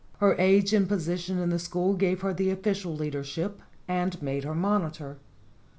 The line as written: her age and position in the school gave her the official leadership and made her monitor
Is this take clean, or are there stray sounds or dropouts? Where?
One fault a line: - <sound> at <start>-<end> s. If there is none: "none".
none